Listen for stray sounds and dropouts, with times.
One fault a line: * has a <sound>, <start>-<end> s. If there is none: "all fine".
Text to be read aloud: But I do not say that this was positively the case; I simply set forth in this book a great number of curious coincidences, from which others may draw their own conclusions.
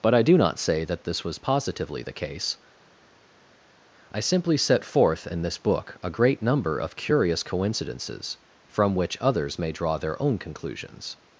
all fine